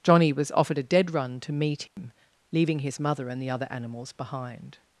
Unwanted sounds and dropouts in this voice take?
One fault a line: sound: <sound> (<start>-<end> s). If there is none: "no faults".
sound: dropout (1.9-2.0 s)